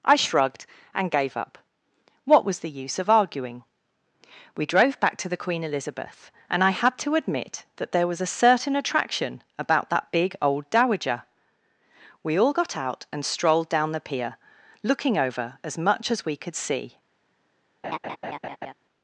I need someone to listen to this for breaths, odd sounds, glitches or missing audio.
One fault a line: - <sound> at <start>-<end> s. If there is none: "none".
- laugh at 17.8-18.7 s